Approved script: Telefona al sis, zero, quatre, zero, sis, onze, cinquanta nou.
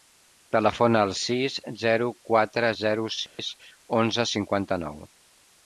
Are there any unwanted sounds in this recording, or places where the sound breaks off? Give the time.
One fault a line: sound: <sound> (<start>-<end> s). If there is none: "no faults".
sound: dropout (3.3-3.4 s)